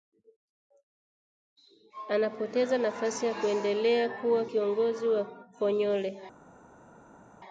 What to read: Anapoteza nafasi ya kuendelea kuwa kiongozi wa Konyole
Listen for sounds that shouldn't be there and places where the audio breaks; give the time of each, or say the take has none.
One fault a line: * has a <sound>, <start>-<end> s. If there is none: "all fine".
all fine